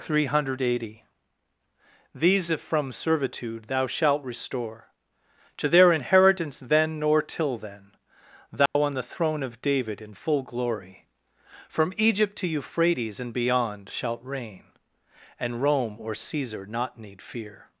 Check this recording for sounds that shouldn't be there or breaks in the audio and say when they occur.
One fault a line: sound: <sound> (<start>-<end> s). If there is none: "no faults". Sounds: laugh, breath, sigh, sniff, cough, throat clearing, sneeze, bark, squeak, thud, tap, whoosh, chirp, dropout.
sound: dropout (8.7-8.8 s)